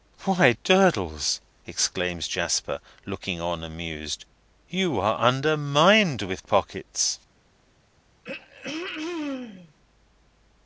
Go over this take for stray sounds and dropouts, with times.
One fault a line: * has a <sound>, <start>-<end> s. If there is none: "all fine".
* has a throat clearing, 8.2-9.7 s